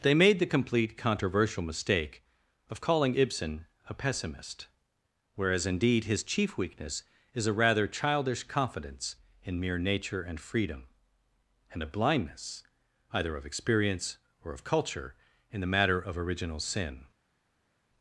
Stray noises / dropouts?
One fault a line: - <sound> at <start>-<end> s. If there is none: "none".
none